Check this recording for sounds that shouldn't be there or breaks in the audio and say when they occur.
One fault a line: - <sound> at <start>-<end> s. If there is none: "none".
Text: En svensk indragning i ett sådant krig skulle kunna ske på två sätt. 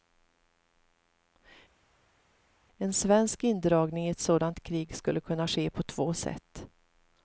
none